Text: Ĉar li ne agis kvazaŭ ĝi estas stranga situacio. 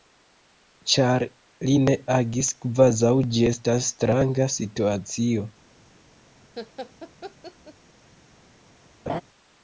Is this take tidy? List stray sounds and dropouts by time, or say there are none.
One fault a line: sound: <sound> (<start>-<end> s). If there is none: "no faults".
sound: laugh (6.6-7.7 s)
sound: laugh (9.1-9.2 s)